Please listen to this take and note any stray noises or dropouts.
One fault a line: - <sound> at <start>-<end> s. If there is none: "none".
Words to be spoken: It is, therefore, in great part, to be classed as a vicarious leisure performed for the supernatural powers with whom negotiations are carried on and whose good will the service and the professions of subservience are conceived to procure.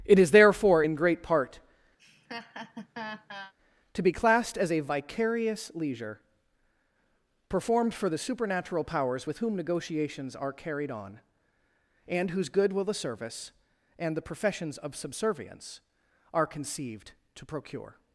- laugh at 2.0-3.5 s